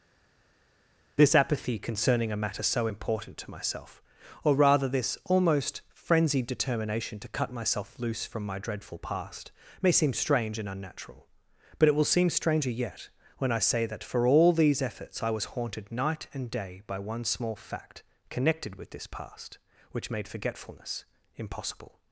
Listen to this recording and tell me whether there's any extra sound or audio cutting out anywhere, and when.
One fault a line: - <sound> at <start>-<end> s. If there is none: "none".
none